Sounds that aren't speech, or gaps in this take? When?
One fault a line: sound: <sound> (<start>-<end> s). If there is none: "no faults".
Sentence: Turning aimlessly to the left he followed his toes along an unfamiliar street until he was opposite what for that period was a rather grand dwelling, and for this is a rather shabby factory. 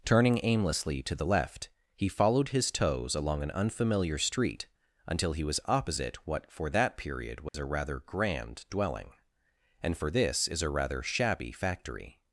sound: dropout (7.5-7.5 s)